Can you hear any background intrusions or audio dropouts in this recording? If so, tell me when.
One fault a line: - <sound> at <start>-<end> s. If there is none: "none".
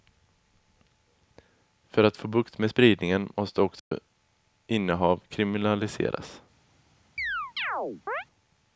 - dropout at 3.8-3.9 s
- chirp at 7.2-8.3 s